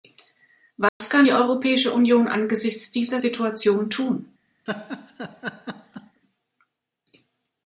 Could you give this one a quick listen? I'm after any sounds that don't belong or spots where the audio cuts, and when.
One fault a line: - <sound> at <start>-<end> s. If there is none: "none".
- dropout at 0.9-1.0 s
- laugh at 4.7-6.2 s